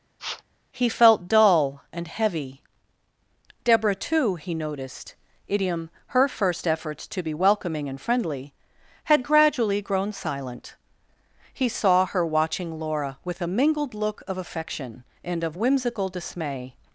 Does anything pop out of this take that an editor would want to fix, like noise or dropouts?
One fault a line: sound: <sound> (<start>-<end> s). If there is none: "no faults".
sound: sniff (0.2-0.4 s)